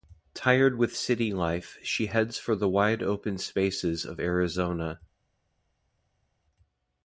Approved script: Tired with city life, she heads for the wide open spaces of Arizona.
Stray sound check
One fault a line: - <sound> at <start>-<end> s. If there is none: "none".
none